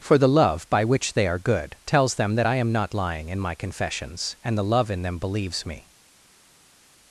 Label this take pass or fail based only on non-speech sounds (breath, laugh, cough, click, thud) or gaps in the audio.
pass